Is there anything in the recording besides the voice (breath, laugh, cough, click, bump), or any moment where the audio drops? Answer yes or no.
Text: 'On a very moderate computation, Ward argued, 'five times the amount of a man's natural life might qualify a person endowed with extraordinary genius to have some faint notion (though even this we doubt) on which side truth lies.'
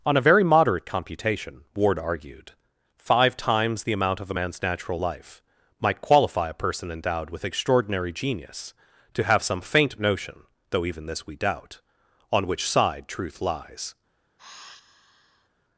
yes